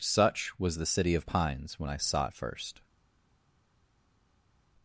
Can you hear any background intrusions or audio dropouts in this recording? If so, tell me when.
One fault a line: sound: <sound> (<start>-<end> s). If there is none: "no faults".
no faults